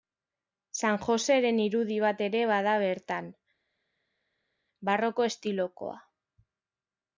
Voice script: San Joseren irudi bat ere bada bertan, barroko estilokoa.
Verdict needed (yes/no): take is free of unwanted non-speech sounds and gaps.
yes